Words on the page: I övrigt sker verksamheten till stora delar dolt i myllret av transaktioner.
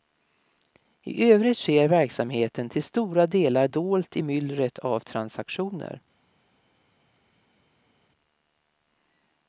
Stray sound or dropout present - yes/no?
no